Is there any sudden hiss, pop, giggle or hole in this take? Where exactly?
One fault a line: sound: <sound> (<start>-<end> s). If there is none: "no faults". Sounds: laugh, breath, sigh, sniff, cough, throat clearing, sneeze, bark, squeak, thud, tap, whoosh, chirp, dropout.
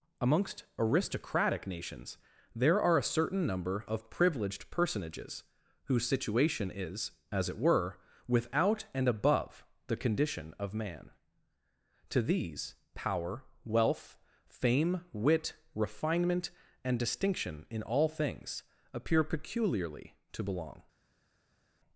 no faults